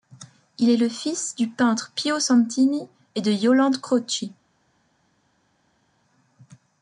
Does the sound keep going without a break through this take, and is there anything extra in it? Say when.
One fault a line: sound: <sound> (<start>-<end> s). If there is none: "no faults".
no faults